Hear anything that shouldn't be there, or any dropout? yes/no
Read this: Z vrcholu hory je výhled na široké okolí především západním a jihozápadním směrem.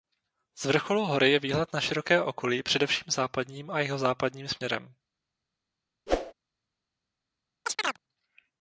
yes